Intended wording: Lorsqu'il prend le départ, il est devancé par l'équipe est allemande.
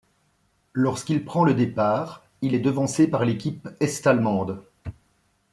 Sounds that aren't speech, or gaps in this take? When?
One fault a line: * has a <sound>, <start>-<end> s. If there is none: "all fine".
all fine